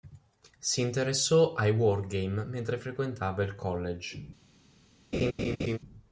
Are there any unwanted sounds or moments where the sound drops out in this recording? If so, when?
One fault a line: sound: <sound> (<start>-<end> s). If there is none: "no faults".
sound: laugh (5.1-5.8 s)